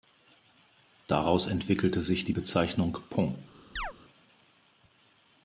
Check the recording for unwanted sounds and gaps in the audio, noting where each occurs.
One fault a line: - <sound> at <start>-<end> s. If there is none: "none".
- chirp at 3.8-3.9 s